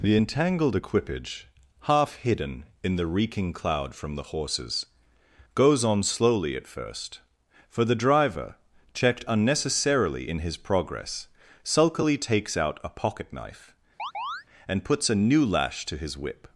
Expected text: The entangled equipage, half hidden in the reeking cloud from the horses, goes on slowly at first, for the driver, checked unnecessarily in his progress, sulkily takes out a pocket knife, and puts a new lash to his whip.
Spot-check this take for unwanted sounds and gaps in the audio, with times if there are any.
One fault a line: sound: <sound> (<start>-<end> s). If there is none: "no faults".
sound: chirp (14.0-14.4 s)